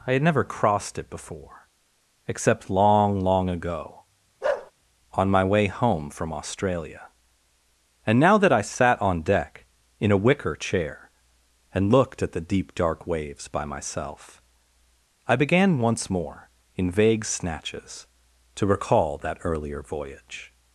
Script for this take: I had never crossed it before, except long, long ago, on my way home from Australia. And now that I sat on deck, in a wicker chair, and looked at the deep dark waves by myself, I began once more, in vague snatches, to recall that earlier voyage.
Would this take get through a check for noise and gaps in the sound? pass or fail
fail